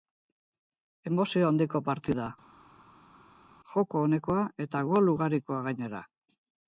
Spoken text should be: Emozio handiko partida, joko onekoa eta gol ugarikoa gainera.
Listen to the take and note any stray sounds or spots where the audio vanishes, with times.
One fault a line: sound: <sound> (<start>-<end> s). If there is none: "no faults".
no faults